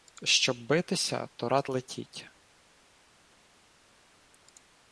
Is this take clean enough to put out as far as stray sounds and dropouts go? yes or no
yes